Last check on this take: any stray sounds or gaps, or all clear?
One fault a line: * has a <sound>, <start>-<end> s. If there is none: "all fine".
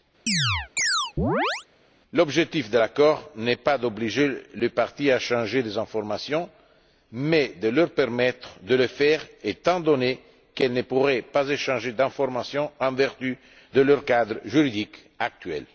* has a chirp, 0.3-1.7 s